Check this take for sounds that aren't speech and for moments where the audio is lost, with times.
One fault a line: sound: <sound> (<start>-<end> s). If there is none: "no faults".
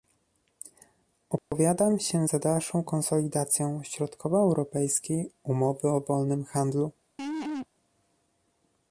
sound: dropout (1.4-1.5 s)
sound: laugh (7.2-7.7 s)